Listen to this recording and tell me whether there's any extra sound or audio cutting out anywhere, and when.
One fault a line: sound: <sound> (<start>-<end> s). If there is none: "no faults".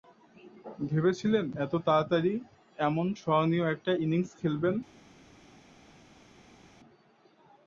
no faults